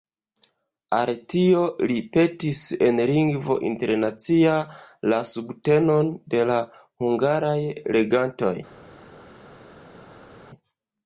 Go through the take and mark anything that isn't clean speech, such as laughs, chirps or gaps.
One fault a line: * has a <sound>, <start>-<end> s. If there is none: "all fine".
all fine